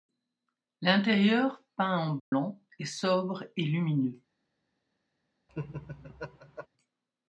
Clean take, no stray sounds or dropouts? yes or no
no